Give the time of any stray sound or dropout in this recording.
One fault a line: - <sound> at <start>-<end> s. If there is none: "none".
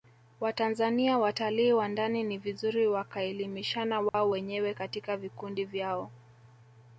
- dropout at 4.1-4.1 s